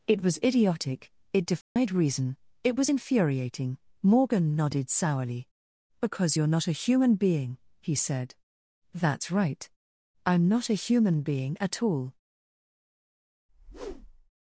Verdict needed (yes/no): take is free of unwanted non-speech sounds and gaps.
no